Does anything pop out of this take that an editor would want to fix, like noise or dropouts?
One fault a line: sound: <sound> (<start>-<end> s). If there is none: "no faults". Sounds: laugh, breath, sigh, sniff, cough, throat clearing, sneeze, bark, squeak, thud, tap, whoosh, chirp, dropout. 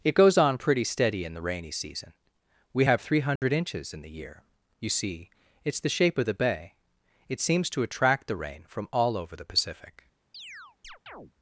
sound: dropout (3.4-3.4 s)
sound: chirp (10.3-11.3 s)